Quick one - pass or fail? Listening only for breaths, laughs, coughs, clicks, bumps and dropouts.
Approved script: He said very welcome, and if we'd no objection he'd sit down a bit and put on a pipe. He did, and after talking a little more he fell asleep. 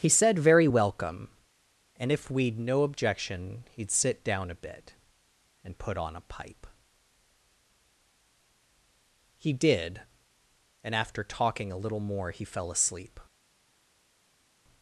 pass